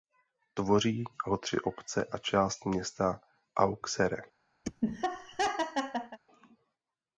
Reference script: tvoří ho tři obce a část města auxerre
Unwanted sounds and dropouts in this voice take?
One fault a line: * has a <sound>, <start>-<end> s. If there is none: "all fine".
* has a laugh, 4.6-6.2 s